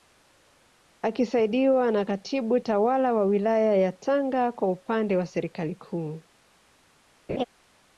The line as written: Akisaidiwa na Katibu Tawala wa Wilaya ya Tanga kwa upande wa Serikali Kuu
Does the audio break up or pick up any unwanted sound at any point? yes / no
yes